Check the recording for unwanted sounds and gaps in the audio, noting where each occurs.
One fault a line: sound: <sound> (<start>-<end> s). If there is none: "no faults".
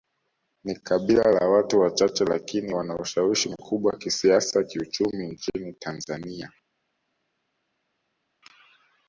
no faults